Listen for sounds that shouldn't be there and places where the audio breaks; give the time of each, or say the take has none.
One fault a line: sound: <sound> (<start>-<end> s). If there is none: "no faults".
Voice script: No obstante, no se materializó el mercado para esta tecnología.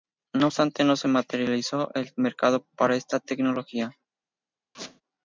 sound: squeak (4.7-5.0 s)